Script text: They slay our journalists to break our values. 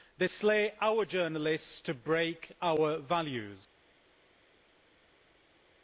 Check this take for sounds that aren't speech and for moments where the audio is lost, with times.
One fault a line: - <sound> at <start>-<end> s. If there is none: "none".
none